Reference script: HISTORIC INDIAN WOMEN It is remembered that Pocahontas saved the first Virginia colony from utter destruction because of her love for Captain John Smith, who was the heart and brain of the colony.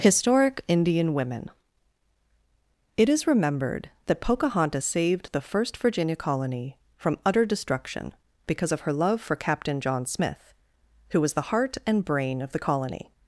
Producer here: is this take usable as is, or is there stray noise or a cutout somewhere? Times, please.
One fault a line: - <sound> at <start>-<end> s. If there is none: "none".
none